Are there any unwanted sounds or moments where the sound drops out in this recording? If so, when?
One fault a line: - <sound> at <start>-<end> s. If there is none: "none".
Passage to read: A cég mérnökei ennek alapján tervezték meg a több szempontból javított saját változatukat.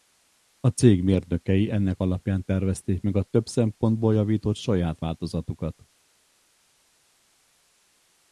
none